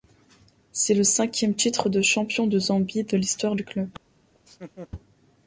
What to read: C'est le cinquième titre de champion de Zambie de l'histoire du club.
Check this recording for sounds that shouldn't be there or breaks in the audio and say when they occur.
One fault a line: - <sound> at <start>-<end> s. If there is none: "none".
- laugh at 4.3-4.9 s